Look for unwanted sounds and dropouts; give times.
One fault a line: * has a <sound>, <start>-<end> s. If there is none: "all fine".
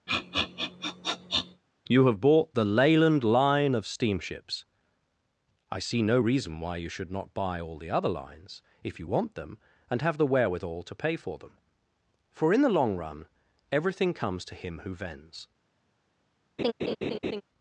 * has a sniff, 0.1-1.6 s
* has a laugh, 16.6-17.4 s